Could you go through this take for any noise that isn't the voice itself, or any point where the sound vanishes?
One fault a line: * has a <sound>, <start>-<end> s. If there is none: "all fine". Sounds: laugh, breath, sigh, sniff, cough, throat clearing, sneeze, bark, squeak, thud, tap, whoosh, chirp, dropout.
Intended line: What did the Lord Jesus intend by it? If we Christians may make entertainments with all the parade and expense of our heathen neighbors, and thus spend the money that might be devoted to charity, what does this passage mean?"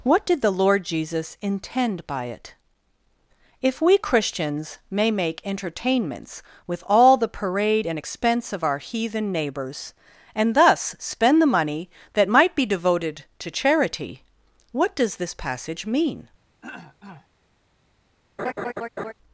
* has a throat clearing, 16.6-17.3 s
* has a laugh, 18.4-19.1 s